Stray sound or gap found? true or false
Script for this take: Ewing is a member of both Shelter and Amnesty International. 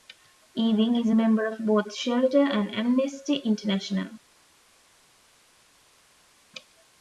false